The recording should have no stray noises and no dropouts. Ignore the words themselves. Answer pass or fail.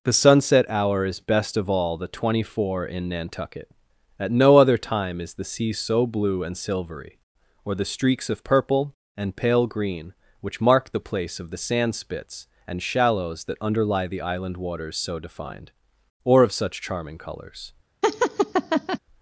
fail